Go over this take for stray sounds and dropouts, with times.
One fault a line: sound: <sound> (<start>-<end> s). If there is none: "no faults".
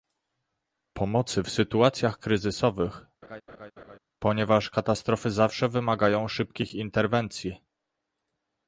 sound: laugh (3.2-4.0 s)